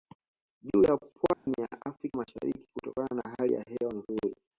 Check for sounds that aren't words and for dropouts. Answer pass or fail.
fail